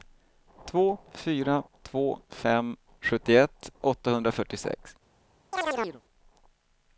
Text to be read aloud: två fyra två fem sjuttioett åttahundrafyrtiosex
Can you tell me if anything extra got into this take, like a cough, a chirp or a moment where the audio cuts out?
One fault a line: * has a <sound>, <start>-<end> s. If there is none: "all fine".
* has a chirp, 5.5-6.0 s